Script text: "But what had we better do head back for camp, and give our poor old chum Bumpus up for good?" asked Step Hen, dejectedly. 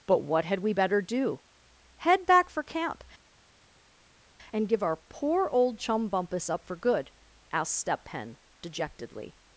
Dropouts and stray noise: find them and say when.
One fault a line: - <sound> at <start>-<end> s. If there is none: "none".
none